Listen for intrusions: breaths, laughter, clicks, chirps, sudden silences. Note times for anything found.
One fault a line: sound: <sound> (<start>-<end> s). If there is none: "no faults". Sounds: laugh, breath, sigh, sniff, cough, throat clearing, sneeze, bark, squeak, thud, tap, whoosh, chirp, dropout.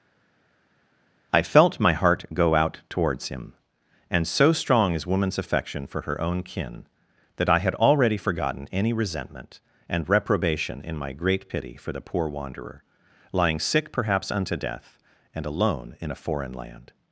no faults